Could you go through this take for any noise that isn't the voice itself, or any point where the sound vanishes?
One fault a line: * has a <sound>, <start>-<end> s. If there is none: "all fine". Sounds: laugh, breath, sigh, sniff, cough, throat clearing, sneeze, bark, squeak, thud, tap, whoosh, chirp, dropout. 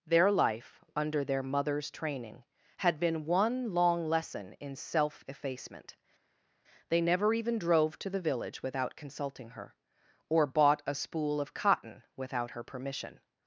all fine